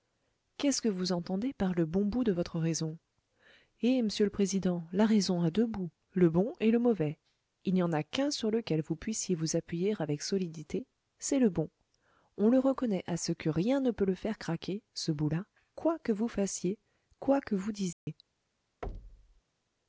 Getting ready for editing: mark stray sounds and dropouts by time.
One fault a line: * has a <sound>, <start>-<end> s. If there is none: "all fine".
* has a dropout, 17.9-18.1 s
* has a thud, 18.8-19.4 s